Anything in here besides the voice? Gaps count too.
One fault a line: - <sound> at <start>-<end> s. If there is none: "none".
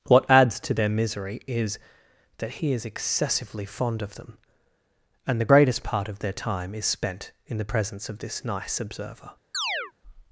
- chirp at 9.5-9.9 s